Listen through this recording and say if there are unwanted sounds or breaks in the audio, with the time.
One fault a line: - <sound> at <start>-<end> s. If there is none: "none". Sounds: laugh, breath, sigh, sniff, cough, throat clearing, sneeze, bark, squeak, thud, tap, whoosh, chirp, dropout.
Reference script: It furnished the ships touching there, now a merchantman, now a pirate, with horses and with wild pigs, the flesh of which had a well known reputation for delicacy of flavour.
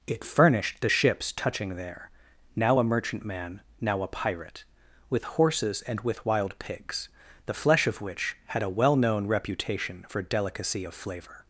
none